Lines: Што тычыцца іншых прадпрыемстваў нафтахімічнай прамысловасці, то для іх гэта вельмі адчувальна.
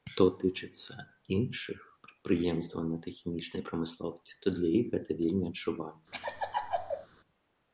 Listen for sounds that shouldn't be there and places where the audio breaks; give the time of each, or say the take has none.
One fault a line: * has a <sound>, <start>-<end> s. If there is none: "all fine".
* has a laugh, 6.1-7.1 s